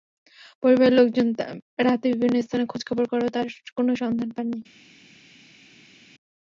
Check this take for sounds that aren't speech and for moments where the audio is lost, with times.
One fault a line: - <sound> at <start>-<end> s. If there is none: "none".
none